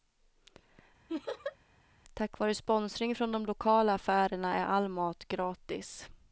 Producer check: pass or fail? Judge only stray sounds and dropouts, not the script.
fail